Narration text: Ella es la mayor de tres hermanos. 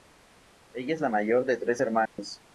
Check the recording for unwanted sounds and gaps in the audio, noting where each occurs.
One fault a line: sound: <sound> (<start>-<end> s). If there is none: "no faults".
sound: dropout (2.1-2.2 s)